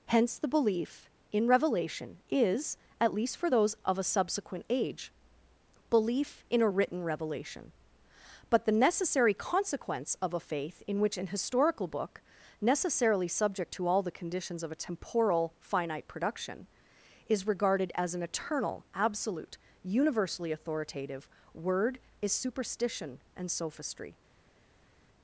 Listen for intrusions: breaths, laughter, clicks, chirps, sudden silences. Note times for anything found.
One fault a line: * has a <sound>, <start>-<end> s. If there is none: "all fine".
all fine